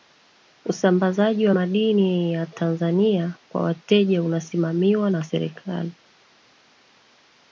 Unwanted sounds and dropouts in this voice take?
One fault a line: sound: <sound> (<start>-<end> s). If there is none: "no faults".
no faults